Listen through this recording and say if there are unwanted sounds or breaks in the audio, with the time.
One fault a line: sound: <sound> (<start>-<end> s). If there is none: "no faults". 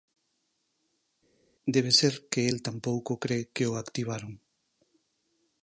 no faults